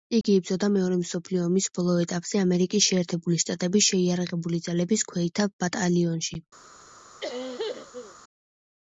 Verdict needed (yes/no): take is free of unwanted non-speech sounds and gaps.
no